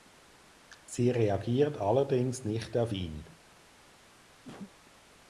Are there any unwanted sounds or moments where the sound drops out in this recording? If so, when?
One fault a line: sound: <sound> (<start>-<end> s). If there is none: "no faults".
sound: cough (4.4-4.7 s)